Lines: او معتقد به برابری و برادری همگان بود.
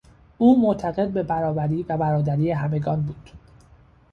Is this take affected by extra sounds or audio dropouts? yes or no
no